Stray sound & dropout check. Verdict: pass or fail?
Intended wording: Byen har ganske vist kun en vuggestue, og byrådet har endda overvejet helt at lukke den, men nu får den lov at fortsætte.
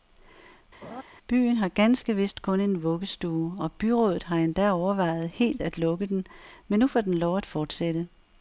fail